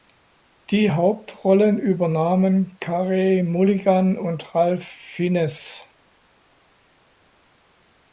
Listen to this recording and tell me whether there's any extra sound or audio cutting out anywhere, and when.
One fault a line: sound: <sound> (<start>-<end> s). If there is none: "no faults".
no faults